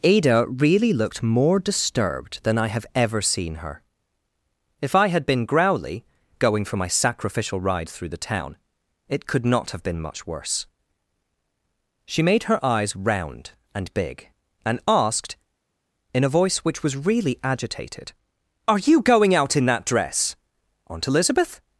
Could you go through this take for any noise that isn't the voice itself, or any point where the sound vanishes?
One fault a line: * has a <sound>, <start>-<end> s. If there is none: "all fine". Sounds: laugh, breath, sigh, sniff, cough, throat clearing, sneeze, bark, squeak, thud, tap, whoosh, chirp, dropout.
all fine